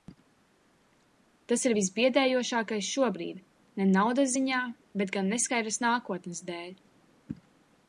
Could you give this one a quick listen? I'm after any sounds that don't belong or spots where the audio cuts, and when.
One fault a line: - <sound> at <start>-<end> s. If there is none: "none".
none